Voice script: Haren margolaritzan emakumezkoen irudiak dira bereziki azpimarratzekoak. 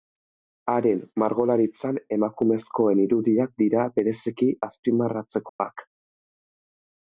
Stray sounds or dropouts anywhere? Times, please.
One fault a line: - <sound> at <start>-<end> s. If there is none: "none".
- dropout at 5.5-5.6 s